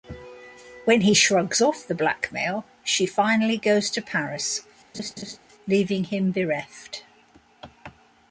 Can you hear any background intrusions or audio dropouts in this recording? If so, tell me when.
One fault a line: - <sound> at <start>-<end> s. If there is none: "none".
- laugh at 4.9-5.4 s